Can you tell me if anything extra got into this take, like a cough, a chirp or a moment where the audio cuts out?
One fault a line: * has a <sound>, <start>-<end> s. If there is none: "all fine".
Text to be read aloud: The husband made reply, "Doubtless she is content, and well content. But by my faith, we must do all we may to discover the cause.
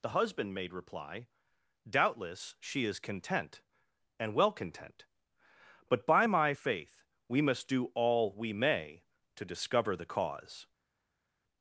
all fine